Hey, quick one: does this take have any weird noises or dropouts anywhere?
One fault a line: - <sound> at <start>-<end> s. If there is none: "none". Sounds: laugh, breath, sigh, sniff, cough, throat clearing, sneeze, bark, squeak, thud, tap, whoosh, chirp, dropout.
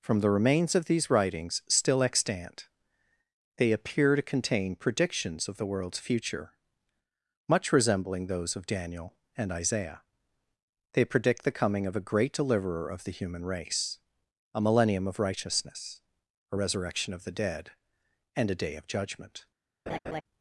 - laugh at 19.9-20.2 s